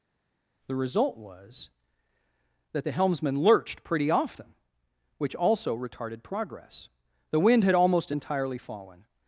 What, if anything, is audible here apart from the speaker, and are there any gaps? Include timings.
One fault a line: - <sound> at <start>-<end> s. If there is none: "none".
none